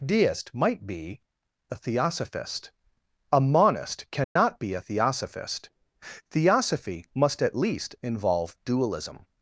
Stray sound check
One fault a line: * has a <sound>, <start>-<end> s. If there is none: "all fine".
* has a dropout, 4.2-4.4 s